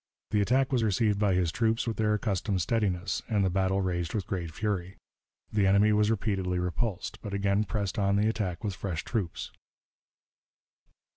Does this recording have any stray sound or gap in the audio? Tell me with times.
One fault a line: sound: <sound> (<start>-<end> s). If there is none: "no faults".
no faults